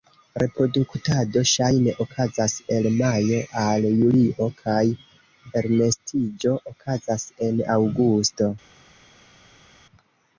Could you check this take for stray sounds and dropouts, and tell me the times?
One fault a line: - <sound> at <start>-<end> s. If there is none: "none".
none